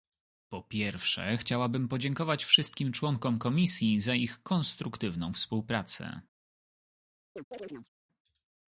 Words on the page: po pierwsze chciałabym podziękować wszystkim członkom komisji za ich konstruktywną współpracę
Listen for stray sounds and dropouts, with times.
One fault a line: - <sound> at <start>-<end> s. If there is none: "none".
- chirp at 7.4-7.9 s